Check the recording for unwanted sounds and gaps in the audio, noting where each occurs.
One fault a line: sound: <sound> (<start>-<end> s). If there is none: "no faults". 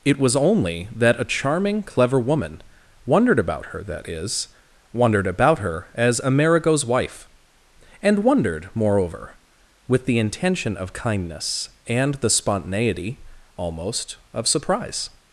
no faults